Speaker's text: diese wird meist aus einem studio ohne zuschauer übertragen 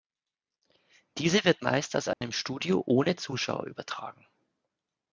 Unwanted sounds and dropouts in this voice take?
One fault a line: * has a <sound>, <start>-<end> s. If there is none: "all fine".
* has a dropout, 2.1-2.2 s